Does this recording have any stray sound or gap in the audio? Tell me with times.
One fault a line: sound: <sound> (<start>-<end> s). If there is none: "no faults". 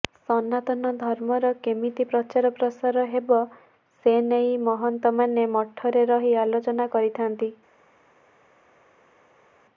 no faults